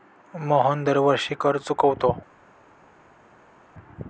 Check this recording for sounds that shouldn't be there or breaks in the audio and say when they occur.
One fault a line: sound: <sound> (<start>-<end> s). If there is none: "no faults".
no faults